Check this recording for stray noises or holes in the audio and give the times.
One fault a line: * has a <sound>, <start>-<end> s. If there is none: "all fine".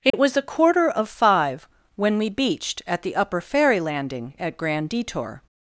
* has a dropout, 0.1-0.1 s